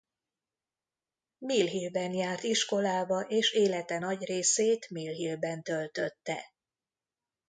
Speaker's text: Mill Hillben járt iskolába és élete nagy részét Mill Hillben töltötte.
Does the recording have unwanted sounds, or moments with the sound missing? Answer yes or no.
no